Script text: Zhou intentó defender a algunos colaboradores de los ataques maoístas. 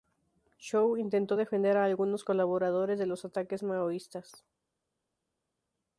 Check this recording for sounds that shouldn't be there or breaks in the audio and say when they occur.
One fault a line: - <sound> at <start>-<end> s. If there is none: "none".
none